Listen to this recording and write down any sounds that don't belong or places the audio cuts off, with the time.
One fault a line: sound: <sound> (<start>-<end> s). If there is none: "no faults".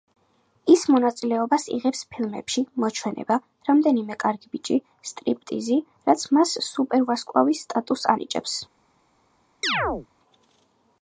sound: chirp (9.6-10.1 s)